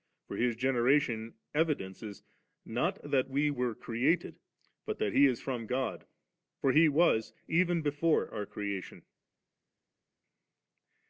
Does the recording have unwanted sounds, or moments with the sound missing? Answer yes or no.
no